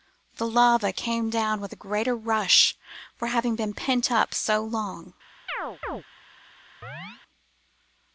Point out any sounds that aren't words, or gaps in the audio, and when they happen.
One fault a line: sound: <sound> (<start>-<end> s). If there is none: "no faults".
sound: chirp (5.5-6.0 s)
sound: chirp (6.8-7.2 s)